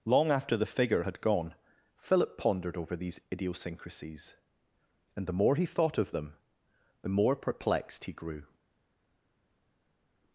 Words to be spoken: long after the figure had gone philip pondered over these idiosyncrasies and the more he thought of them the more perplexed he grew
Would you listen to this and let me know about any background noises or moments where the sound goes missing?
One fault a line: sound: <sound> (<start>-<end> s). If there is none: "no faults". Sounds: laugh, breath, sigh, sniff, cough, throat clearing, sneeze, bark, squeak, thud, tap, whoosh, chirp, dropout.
no faults